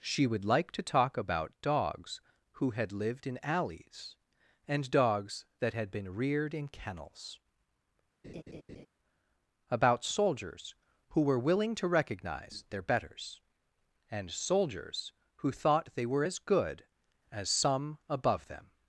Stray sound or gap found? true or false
true